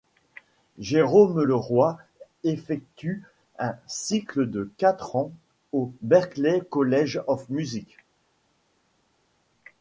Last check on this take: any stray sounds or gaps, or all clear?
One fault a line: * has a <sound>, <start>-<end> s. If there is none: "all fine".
all fine